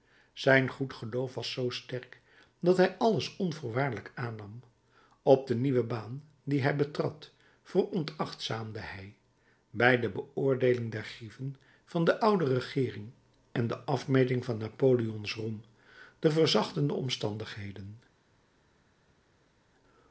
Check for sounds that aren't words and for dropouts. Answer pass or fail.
pass